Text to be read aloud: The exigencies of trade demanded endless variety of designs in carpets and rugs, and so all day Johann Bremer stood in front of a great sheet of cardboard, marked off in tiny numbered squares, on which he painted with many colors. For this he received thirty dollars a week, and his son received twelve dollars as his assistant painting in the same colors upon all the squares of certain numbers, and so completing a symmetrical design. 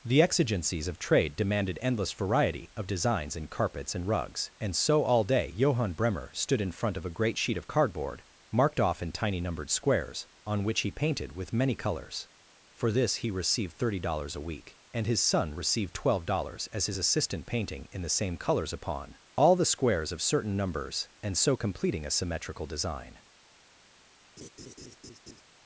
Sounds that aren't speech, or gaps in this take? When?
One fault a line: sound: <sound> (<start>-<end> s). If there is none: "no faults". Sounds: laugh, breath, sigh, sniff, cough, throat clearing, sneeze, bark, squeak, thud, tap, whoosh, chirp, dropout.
sound: laugh (24.4-25.4 s)